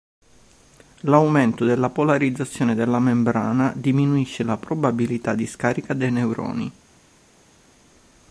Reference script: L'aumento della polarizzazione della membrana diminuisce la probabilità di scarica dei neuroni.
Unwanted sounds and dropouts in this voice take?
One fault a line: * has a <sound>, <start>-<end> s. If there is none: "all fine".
all fine